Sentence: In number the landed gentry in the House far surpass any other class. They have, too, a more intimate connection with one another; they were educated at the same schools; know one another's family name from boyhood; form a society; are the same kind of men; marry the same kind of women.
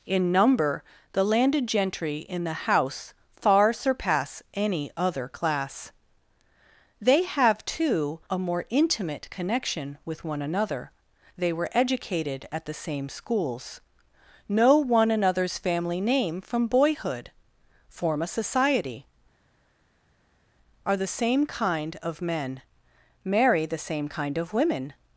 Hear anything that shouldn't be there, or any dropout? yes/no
no